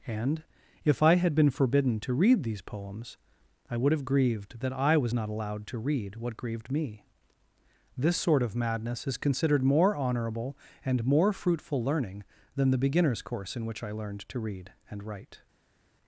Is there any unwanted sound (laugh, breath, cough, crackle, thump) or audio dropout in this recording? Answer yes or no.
no